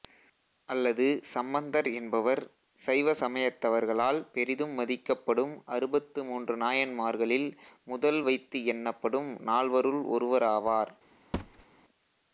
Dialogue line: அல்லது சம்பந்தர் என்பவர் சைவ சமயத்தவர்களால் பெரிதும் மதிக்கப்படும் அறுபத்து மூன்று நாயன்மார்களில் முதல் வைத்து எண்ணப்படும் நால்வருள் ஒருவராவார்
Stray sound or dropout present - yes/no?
yes